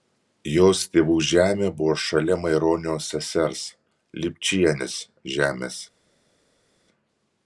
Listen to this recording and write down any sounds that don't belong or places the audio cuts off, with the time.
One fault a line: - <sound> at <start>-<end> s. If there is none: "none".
none